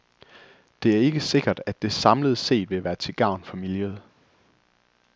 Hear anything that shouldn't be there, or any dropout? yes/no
no